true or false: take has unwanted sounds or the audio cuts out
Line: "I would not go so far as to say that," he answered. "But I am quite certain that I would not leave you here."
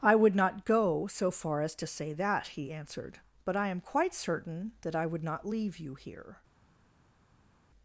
false